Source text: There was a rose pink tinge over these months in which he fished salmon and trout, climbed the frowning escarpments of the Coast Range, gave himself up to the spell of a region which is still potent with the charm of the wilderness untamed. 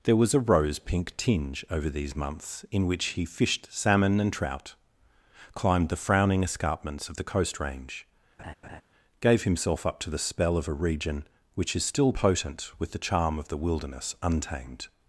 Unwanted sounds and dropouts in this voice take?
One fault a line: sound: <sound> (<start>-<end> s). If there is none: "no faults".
sound: laugh (8.4-8.8 s)